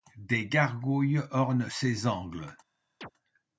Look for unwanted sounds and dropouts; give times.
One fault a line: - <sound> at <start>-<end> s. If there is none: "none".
- chirp at 3.0-3.1 s